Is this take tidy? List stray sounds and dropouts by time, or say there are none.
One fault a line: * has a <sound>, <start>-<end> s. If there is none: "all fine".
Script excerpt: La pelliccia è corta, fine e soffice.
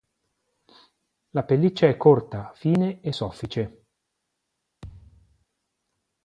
* has a thud, 4.8-5.5 s